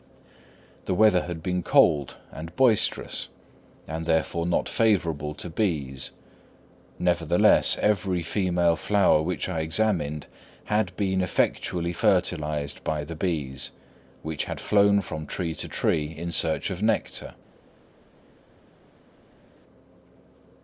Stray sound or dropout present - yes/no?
no